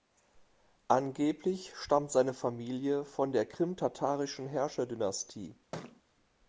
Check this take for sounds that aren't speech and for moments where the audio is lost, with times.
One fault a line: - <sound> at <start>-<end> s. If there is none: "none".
- thud at 5.7-6.0 s